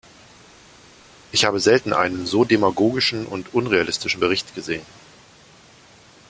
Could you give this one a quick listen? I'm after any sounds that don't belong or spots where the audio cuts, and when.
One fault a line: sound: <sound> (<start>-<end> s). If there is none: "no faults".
no faults